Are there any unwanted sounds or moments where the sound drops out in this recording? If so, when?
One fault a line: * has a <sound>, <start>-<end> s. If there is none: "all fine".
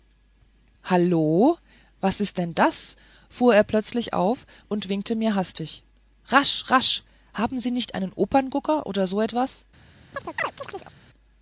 * has a chirp, 10.1-11.0 s